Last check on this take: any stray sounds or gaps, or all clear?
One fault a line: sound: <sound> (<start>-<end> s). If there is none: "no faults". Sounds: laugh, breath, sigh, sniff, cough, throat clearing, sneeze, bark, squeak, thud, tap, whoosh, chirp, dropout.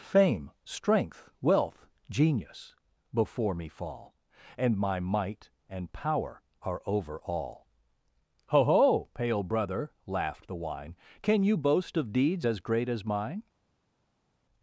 no faults